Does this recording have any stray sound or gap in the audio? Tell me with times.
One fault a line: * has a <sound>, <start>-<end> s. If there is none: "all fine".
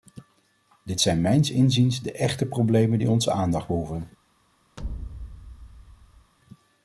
* has a thud, 4.8-6.3 s